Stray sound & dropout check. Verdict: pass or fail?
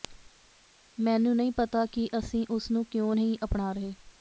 pass